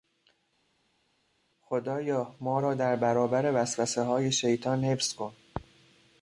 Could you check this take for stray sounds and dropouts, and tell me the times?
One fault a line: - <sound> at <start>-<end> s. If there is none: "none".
none